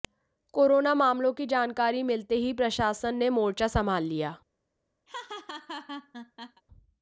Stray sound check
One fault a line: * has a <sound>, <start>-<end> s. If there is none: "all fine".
* has a laugh, 5.1-6.6 s